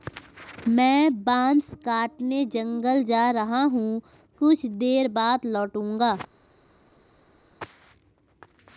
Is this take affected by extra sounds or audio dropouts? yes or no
no